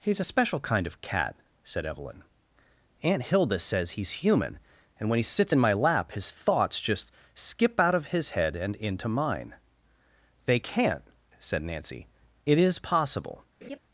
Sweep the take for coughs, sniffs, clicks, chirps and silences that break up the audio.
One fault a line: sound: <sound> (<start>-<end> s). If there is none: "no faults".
sound: laugh (13.6-13.8 s)